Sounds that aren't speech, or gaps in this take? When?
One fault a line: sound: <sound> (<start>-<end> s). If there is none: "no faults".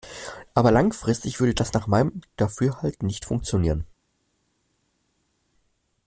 no faults